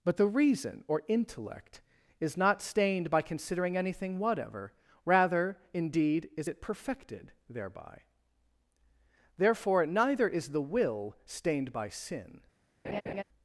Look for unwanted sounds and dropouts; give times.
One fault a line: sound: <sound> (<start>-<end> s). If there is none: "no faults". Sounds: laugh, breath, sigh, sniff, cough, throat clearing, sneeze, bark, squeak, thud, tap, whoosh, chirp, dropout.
sound: laugh (12.8-13.2 s)